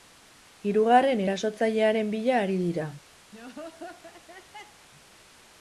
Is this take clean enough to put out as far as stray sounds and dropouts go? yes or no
no